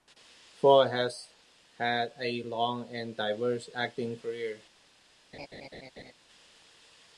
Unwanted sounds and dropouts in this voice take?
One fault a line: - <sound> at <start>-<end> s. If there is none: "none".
- laugh at 5.3-6.1 s